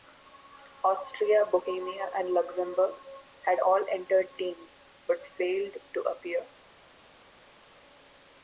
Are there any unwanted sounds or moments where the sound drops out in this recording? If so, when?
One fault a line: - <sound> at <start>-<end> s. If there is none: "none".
none